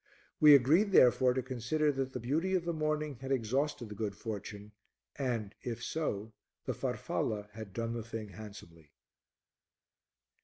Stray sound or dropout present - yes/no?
no